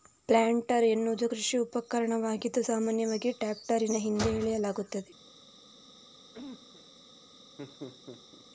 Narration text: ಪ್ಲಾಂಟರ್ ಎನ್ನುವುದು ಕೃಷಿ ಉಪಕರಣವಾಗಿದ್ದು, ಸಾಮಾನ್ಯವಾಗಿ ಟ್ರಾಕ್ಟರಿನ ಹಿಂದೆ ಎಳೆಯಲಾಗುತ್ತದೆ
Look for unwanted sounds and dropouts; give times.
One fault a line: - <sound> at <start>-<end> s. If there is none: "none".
- cough at 6.3-6.9 s
- laugh at 7.6-8.5 s